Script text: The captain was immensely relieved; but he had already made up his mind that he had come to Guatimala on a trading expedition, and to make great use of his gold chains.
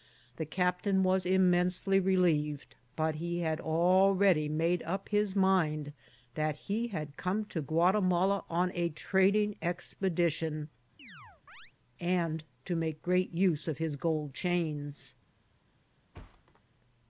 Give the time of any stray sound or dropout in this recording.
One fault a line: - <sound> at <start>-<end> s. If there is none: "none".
- chirp at 11.0-11.7 s
- thud at 16.1-16.6 s